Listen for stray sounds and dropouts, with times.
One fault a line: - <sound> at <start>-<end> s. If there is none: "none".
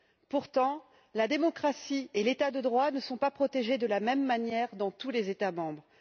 none